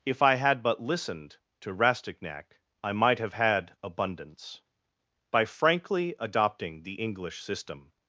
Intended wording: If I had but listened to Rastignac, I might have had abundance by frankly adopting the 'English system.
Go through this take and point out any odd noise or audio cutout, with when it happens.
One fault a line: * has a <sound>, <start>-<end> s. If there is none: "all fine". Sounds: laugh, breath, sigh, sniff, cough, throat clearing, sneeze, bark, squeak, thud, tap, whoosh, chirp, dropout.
all fine